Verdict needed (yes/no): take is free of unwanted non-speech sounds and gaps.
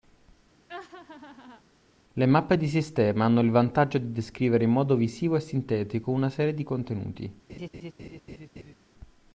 no